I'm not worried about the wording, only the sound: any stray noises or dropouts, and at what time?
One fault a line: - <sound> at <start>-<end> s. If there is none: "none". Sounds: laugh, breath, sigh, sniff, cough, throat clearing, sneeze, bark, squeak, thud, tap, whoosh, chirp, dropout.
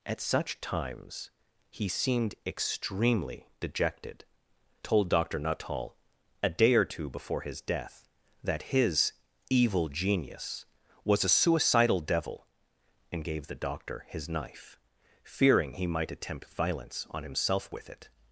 none